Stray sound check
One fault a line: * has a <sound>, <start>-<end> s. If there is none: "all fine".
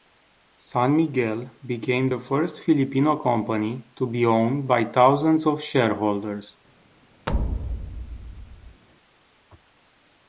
* has a thud, 7.3-8.8 s